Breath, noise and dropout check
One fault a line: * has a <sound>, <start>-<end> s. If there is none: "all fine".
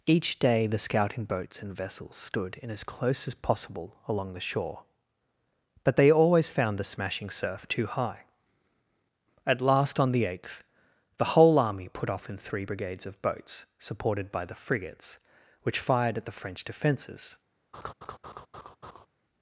* has a laugh, 17.7-19.1 s